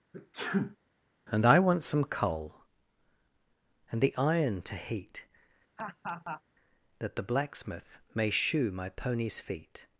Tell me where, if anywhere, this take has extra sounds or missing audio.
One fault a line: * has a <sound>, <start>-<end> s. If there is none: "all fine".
* has a sneeze, 0.1-0.8 s
* has a laugh, 5.8-6.4 s